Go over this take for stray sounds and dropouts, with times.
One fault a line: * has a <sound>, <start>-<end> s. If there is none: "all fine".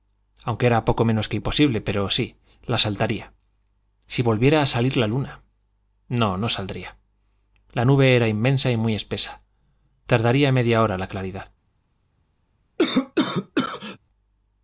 * has a cough, 12.8-14.0 s